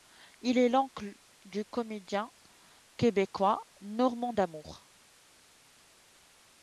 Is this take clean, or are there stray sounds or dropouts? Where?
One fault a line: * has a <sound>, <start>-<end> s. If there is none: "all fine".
all fine